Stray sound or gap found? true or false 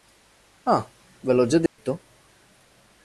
true